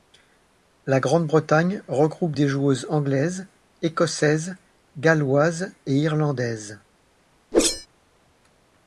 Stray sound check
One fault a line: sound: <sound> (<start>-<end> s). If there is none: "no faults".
sound: whoosh (7.5-7.9 s)